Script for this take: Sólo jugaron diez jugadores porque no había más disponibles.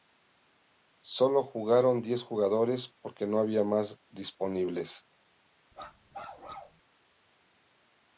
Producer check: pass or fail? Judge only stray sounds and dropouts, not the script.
fail